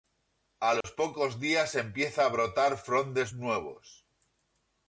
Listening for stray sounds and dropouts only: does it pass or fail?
fail